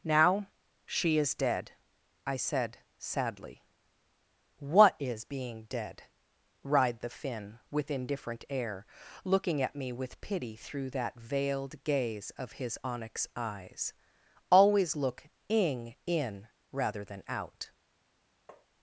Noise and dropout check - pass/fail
fail